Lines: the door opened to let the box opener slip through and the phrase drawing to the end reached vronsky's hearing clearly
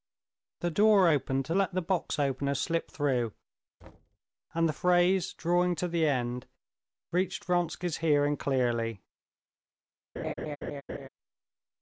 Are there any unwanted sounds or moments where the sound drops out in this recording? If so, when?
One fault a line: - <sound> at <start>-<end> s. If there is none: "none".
- thud at 3.8-4.2 s
- laugh at 10.2-11.1 s